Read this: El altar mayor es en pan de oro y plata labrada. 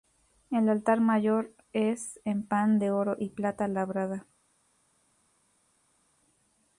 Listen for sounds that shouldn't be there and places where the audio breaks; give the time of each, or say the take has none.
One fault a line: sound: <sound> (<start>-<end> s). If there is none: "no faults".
no faults